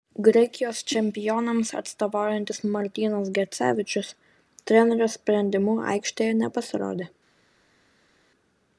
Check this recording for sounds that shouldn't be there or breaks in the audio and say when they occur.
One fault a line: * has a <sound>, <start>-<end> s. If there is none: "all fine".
all fine